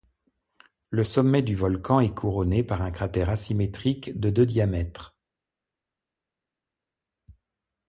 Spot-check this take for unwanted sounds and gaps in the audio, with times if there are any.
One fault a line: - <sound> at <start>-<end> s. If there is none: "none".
none